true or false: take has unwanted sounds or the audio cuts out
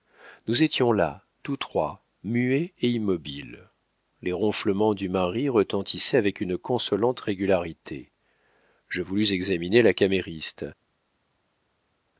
false